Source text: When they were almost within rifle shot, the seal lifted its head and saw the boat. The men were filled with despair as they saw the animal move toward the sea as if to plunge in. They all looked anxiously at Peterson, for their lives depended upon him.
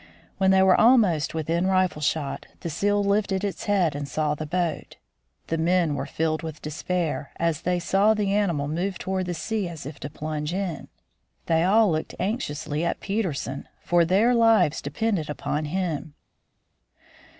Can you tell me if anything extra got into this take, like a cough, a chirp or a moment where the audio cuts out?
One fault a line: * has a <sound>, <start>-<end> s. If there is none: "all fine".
all fine